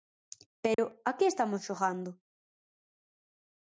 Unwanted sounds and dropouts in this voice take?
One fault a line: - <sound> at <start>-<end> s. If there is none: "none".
- dropout at 0.7-0.8 s